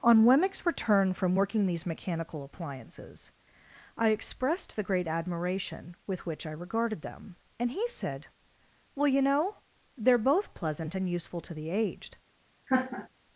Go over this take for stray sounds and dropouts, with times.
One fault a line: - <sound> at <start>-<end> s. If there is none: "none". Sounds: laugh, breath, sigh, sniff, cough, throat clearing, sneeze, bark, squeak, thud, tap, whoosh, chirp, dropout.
- laugh at 12.7-13.1 s